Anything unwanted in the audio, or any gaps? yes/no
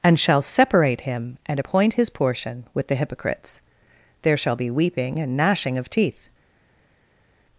no